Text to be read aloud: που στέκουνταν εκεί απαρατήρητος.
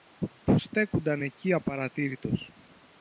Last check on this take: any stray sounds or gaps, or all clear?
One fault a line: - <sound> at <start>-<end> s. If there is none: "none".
none